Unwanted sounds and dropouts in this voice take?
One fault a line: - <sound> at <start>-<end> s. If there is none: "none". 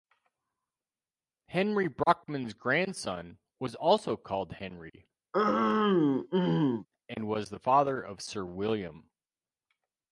- throat clearing at 5.3-6.9 s